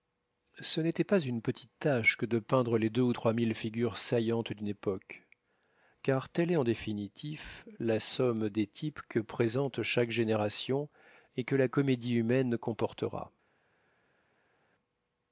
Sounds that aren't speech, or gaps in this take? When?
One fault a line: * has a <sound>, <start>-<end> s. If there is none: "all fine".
all fine